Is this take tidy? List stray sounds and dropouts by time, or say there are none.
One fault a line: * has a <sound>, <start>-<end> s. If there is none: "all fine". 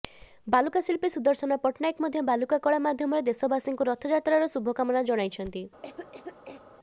* has a cough, 5.8-6.6 s